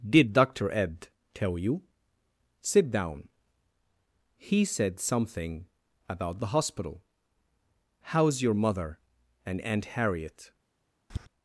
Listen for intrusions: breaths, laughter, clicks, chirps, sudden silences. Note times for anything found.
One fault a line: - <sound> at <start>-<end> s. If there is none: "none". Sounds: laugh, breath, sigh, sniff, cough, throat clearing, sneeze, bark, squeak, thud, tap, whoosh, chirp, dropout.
- tap at 11.1-11.3 s